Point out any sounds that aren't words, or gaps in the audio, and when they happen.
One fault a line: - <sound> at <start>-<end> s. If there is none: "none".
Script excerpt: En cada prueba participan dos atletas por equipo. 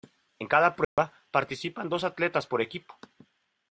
- dropout at 0.8-1.0 s